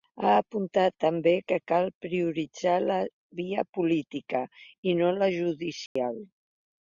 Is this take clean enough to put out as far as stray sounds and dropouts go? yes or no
no